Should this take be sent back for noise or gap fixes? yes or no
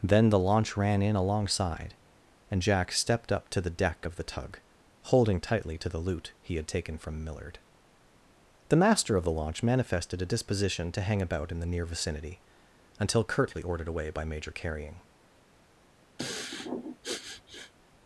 yes